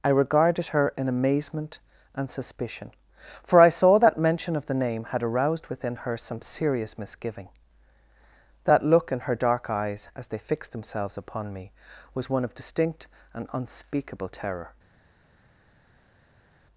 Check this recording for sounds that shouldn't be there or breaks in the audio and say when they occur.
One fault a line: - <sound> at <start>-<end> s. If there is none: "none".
none